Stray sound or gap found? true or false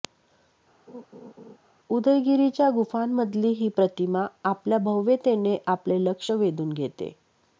true